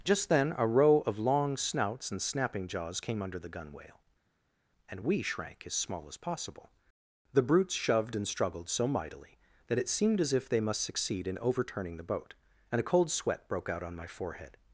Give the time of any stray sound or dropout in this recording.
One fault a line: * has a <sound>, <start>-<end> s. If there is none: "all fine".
all fine